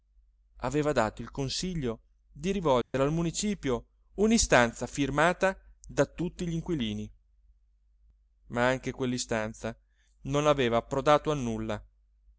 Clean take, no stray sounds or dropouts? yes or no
no